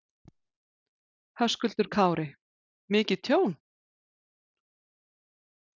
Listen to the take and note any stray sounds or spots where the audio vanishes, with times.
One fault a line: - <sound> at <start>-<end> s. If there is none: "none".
none